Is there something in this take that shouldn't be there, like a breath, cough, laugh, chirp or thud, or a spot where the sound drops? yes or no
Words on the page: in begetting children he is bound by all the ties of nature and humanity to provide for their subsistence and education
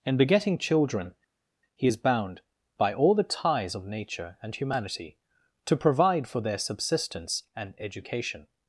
no